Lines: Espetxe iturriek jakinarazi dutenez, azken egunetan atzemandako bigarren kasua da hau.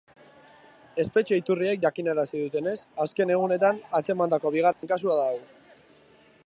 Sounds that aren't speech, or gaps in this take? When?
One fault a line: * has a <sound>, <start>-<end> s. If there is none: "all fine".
* has a dropout, 4.7-4.8 s